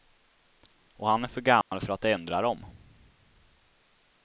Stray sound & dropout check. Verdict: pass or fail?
fail